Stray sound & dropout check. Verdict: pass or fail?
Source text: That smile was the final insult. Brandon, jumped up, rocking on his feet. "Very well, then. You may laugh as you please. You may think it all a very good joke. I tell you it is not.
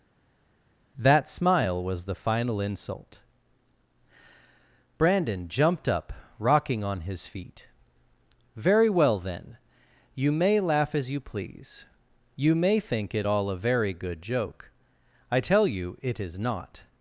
pass